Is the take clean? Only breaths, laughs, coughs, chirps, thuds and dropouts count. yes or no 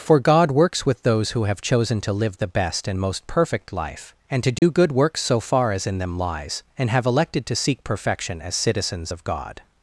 no